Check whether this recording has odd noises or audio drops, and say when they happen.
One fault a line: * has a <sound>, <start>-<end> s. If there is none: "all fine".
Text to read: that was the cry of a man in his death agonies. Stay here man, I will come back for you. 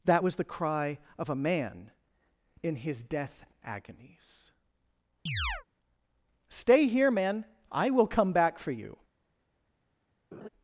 * has a chirp, 5.3-5.6 s
* has a laugh, 10.3-10.5 s